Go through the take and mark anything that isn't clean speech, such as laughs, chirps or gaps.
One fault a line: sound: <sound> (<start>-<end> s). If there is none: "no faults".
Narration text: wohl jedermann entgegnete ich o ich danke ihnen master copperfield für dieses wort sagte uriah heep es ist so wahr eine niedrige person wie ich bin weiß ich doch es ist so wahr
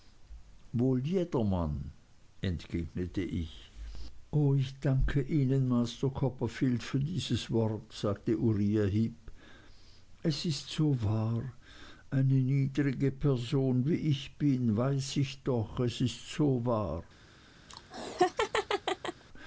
sound: laugh (17.7-19.2 s)